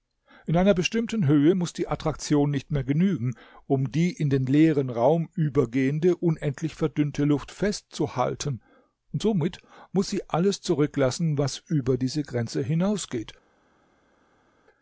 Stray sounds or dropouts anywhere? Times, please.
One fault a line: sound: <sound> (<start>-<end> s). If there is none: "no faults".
no faults